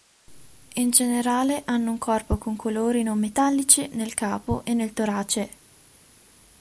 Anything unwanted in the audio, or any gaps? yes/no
no